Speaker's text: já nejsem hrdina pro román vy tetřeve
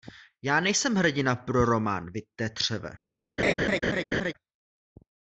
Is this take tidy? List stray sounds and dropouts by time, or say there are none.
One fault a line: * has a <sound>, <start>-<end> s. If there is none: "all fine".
* has a laugh, 3.4-4.3 s